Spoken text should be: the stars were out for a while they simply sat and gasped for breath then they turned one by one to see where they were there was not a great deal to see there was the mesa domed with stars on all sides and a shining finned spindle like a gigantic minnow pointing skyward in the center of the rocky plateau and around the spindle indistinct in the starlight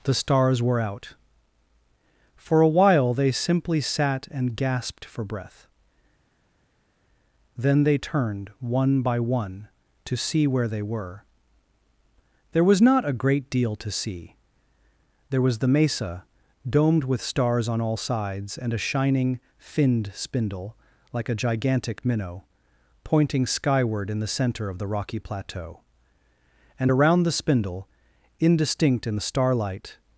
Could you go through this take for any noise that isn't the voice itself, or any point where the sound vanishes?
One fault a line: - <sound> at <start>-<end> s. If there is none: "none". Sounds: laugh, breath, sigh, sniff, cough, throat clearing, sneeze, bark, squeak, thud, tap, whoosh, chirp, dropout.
none